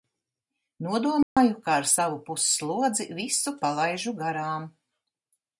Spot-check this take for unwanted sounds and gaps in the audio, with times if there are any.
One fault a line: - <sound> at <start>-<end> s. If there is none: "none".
- dropout at 1.2-1.4 s